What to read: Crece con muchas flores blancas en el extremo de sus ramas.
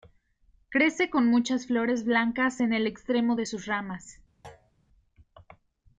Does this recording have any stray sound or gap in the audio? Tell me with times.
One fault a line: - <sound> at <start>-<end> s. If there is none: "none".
- thud at 4.4-4.7 s